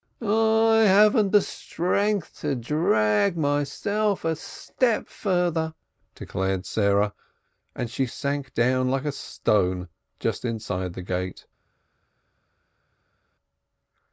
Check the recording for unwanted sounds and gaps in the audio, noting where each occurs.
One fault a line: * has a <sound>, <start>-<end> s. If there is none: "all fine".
all fine